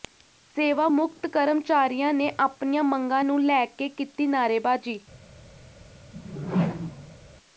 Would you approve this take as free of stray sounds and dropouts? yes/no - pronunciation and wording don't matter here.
no